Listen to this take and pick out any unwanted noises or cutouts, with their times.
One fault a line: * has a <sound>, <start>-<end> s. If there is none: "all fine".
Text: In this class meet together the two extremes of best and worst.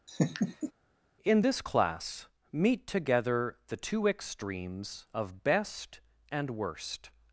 * has a laugh, 0.1-0.7 s